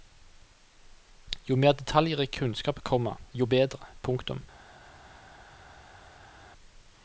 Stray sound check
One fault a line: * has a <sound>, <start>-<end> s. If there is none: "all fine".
all fine